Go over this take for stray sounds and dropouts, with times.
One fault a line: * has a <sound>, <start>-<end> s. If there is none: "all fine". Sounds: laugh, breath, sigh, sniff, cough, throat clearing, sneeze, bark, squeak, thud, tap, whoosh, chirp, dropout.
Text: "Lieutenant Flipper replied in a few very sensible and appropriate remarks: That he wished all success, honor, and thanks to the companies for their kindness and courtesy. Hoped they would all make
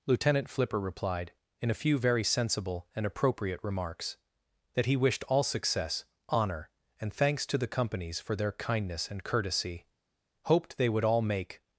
all fine